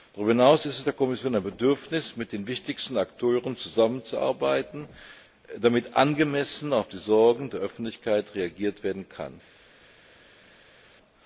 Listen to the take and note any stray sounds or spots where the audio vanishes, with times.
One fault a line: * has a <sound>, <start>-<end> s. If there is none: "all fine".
all fine